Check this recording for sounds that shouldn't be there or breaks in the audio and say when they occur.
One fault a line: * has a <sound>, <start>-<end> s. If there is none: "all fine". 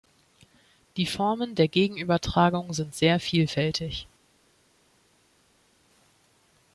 all fine